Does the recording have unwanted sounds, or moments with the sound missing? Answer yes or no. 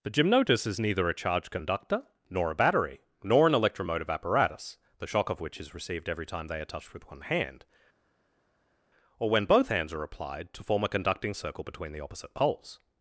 no